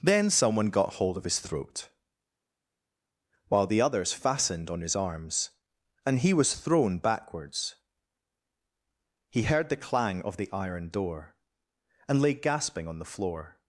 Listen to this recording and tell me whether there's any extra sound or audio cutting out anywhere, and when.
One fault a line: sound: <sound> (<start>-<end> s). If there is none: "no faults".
no faults